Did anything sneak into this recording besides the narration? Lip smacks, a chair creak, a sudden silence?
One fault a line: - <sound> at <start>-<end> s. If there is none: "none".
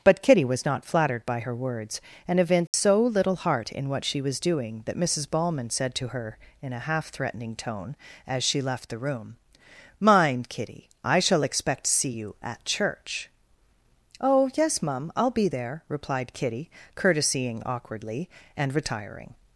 - dropout at 2.7-2.7 s